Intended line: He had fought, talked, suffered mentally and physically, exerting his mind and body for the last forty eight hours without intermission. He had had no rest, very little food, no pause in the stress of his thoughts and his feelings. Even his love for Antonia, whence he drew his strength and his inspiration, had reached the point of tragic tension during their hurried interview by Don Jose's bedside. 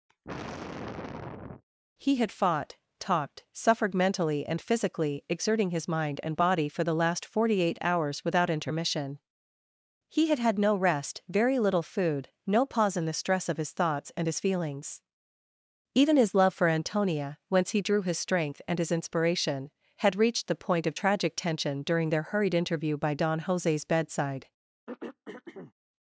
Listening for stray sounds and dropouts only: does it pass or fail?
fail